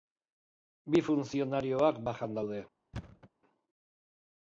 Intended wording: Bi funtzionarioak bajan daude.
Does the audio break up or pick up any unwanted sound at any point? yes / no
yes